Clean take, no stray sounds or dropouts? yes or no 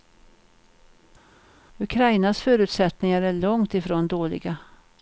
yes